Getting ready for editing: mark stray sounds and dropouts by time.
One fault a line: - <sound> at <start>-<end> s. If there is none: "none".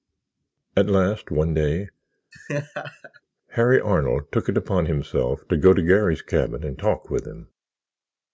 - laugh at 2.3-3.2 s